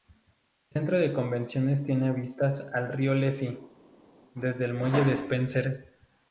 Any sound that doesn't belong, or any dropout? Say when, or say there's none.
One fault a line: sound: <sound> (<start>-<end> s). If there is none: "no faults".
no faults